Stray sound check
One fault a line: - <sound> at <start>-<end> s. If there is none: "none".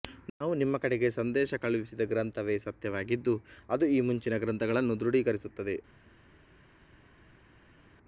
none